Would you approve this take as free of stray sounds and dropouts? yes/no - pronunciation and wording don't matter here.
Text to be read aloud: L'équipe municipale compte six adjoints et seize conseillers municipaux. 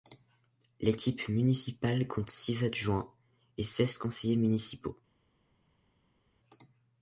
yes